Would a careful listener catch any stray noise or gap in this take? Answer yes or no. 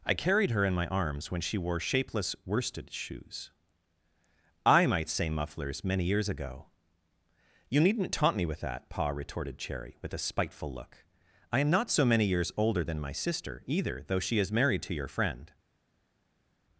no